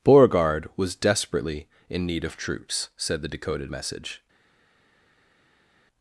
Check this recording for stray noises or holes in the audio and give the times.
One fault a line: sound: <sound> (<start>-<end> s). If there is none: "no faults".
no faults